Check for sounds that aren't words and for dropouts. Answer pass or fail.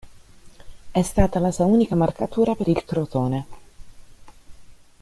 pass